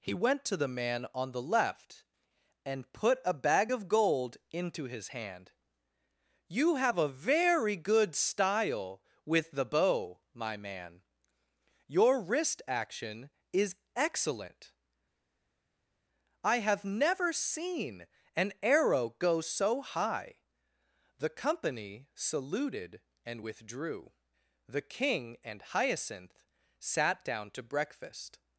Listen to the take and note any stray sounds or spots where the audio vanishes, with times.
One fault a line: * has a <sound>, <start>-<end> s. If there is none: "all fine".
all fine